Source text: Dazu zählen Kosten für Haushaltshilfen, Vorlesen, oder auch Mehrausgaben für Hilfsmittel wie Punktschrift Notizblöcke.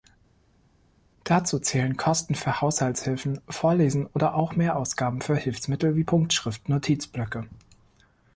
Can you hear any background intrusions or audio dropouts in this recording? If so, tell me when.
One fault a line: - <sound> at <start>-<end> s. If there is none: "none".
none